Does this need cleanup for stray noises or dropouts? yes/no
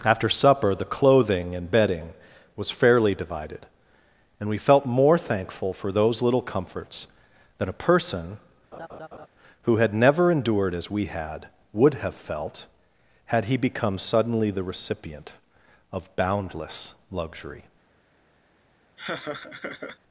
yes